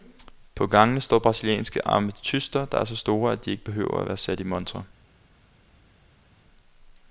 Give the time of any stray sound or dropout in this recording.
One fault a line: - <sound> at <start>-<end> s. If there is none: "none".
none